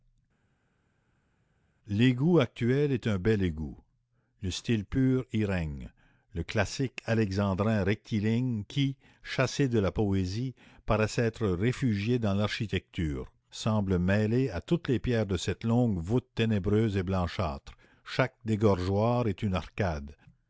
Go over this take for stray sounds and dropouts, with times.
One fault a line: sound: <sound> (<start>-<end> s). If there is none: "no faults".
no faults